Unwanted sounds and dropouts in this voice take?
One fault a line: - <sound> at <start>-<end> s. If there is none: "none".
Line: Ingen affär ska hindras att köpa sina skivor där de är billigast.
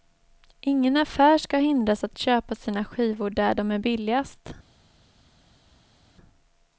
none